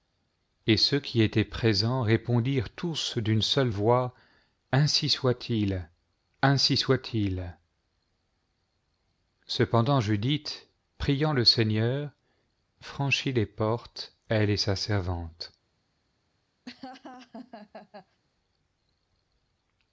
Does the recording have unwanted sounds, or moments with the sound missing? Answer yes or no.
yes